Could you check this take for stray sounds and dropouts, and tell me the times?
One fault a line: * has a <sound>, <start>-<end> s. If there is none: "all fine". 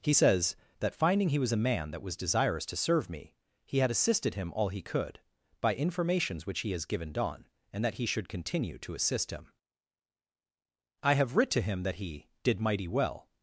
all fine